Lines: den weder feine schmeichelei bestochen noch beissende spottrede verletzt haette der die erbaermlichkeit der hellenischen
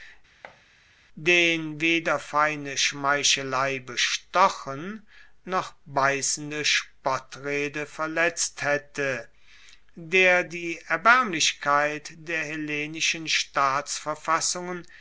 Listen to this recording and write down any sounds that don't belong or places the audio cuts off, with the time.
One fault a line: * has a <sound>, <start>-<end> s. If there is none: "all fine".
* has a thud, 0.4-0.6 s